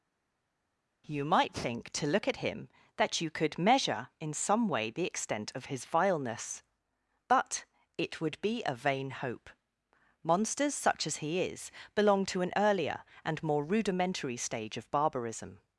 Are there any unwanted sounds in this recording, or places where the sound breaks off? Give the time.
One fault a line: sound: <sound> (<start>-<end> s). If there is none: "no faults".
no faults